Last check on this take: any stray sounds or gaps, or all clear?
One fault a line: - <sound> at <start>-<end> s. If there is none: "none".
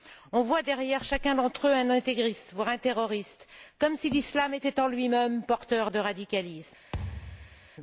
- thud at 6.9-7.7 s